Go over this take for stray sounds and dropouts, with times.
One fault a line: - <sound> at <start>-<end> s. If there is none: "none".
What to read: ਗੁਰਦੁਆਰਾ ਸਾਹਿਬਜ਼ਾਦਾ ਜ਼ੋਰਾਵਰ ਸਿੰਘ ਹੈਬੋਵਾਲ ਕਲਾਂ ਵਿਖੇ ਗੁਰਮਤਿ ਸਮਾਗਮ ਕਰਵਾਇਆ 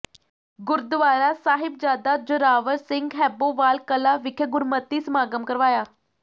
none